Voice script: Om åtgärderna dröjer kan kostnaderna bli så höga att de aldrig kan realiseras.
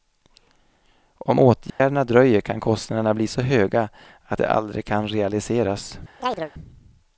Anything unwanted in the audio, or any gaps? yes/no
yes